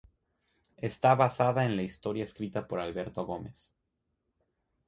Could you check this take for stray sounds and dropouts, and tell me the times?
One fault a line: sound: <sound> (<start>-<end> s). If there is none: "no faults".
no faults